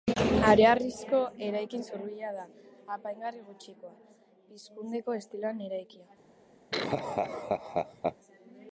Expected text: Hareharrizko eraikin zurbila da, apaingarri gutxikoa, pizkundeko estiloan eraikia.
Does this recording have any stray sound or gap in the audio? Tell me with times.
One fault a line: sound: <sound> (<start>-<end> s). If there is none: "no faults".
sound: laugh (6.7-8.2 s)